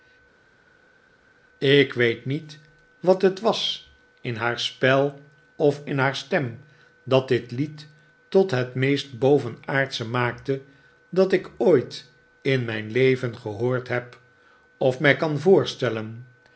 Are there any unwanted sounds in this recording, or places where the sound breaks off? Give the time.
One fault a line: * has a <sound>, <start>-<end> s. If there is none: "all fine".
all fine